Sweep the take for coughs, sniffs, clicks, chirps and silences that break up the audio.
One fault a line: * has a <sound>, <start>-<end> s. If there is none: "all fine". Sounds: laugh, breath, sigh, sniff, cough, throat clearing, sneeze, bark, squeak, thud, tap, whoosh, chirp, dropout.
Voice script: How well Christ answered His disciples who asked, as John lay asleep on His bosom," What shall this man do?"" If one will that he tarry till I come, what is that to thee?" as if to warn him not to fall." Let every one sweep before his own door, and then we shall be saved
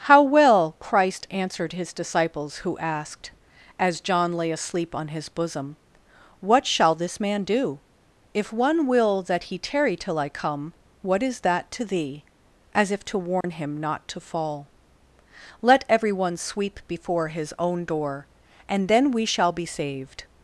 * has a dropout, 13.4-13.4 s